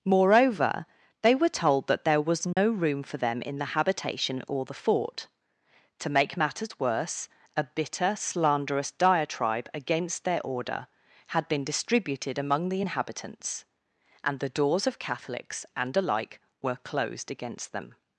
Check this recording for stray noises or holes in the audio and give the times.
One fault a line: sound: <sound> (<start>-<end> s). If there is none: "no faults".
sound: dropout (2.5-2.6 s)